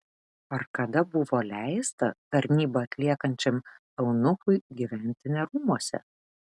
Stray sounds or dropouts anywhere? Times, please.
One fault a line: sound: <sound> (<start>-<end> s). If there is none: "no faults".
no faults